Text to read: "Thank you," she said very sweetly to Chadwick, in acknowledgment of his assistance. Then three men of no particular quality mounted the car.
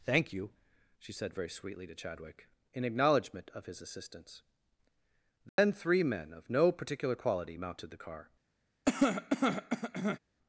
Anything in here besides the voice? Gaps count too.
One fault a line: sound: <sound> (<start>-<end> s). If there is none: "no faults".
sound: dropout (5.5-5.6 s)
sound: cough (8.9-10.2 s)